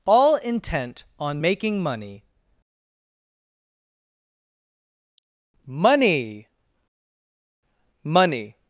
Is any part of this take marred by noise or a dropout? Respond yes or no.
no